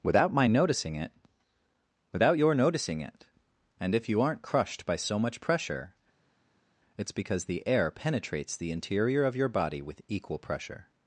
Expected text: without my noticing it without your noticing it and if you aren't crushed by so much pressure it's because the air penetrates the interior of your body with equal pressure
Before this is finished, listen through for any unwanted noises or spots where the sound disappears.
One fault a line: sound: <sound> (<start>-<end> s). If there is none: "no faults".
no faults